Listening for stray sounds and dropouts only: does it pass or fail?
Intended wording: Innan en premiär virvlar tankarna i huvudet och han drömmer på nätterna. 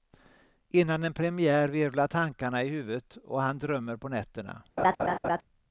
fail